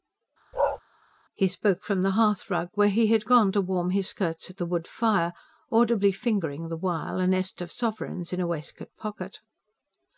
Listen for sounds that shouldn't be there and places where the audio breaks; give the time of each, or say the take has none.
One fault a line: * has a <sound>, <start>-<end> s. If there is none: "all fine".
* has a bark, 0.5-0.8 s